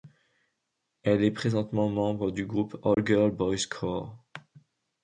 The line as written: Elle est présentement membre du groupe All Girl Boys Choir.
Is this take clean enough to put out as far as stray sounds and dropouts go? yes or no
no